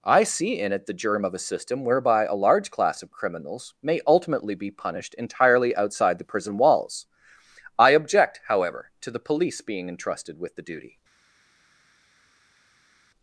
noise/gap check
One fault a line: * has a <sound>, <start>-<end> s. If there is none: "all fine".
all fine